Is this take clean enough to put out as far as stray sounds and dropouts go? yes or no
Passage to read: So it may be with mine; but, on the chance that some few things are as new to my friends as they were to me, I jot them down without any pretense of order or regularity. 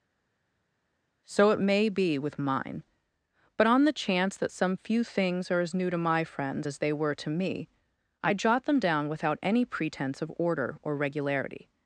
yes